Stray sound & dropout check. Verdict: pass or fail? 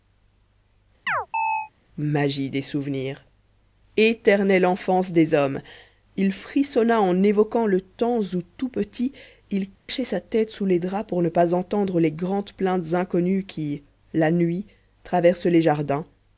fail